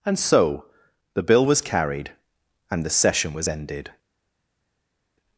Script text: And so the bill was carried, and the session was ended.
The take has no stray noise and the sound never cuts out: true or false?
true